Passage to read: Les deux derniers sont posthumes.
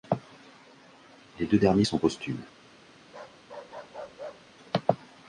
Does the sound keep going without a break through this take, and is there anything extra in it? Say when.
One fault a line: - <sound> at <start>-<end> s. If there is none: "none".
- bark at 3.1-4.5 s